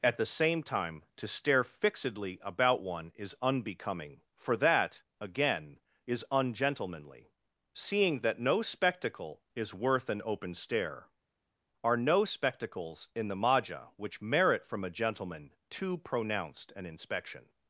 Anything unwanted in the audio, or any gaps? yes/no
no